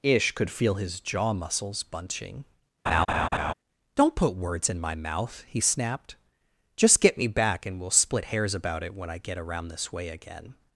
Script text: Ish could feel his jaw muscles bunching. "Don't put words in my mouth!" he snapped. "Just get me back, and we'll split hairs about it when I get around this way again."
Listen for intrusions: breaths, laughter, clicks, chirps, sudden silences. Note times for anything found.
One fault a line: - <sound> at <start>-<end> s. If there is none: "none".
- laugh at 2.9-3.5 s